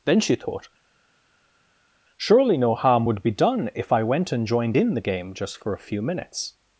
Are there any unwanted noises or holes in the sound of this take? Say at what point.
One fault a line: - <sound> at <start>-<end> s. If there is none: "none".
none